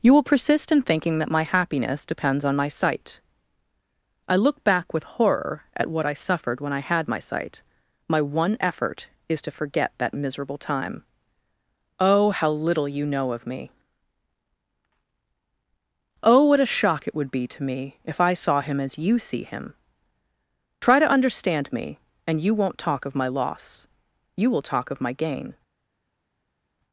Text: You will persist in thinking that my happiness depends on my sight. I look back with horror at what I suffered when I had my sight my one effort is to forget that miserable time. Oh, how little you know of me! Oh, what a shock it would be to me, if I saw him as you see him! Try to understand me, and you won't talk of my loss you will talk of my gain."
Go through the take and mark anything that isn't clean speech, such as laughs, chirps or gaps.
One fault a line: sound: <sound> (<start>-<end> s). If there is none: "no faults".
no faults